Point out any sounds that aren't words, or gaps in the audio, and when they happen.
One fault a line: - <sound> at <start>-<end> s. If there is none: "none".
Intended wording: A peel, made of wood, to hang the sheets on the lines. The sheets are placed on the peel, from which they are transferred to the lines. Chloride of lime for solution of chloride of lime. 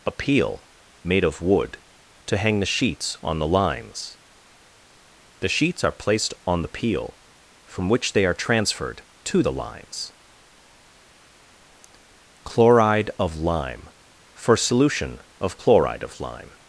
none